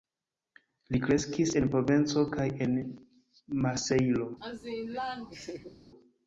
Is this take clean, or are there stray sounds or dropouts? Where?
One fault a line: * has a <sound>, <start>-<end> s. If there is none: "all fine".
* has a laugh, 4.4-5.8 s